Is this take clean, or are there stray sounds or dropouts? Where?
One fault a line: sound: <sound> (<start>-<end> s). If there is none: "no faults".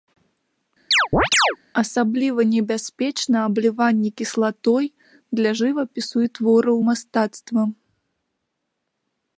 sound: chirp (0.9-1.6 s)